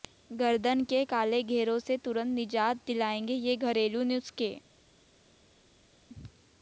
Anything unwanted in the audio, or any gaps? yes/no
no